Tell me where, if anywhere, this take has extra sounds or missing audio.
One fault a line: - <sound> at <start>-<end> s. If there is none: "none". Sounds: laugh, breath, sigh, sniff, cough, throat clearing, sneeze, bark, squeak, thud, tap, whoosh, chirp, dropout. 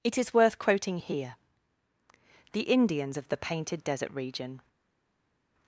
none